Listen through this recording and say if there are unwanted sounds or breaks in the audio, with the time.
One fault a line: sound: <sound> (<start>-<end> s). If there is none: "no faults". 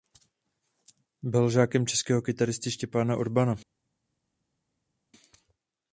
no faults